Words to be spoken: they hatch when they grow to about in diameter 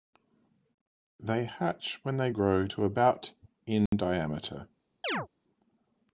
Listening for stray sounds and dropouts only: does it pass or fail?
fail